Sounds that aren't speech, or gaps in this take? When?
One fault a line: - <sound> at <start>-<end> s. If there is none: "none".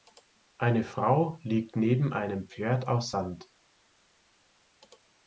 none